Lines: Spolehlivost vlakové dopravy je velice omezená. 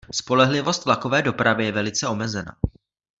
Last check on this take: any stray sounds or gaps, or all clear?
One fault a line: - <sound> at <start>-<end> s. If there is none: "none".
none